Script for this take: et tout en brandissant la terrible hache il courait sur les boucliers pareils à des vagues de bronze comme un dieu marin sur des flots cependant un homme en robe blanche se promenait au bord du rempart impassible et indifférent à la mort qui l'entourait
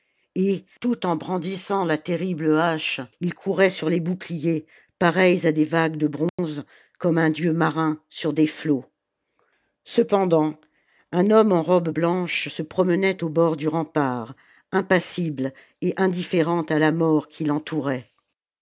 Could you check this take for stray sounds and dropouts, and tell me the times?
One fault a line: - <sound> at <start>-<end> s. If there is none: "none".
- dropout at 6.3-6.4 s